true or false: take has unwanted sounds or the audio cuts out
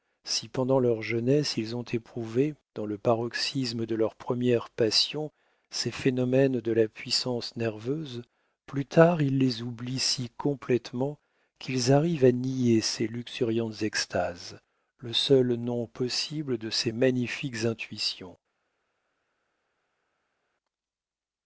false